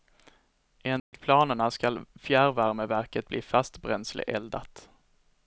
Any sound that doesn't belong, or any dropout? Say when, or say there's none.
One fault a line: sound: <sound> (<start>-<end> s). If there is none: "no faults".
sound: dropout (1.0-1.1 s)